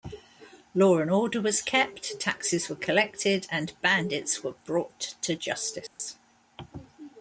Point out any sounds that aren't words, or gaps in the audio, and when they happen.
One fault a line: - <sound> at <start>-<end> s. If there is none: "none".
- dropout at 5.9-6.0 s